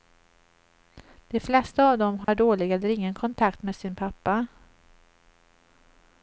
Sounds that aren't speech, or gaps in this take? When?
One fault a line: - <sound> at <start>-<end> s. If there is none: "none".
- dropout at 2.2-2.3 s